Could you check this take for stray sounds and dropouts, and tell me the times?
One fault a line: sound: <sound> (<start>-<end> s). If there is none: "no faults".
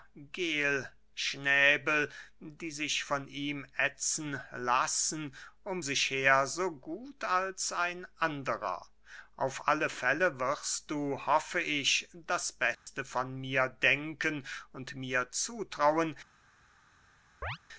sound: dropout (12.7-12.9 s)
sound: chirp (17.4-17.6 s)